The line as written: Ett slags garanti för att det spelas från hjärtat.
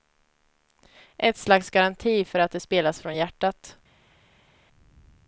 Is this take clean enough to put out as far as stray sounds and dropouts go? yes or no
yes